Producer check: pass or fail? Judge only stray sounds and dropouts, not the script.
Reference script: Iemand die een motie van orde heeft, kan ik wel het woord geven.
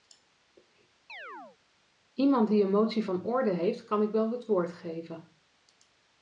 fail